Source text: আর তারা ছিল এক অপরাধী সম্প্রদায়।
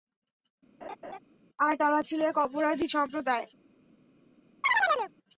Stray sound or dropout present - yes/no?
yes